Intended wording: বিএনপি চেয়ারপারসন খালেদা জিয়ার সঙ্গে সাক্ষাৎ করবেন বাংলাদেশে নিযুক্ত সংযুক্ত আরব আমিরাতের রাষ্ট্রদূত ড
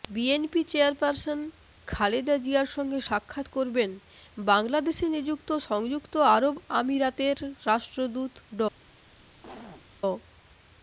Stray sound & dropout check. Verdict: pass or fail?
fail